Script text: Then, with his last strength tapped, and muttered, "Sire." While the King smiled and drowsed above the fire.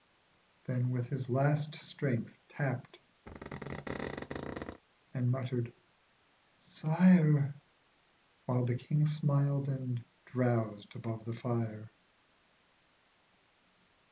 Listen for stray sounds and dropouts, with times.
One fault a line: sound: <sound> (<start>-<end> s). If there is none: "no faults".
sound: squeak (3.3-4.8 s)